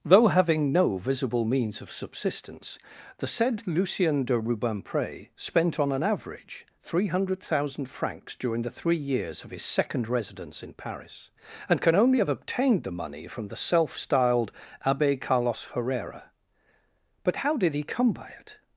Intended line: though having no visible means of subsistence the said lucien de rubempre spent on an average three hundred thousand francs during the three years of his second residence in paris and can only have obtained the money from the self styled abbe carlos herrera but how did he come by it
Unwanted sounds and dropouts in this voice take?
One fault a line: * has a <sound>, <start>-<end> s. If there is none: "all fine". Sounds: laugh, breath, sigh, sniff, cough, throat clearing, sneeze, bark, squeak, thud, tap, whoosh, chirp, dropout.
all fine